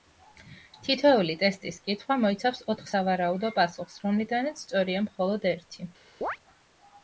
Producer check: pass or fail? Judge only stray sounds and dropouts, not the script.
fail